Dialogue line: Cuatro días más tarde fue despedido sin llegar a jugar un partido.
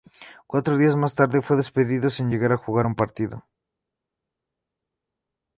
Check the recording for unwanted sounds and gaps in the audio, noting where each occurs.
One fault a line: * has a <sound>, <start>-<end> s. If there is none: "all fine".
all fine